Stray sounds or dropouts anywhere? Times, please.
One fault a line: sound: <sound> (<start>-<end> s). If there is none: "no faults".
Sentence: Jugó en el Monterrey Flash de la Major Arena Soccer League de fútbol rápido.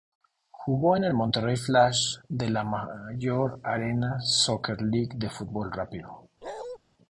sound: bark (6.4-6.8 s)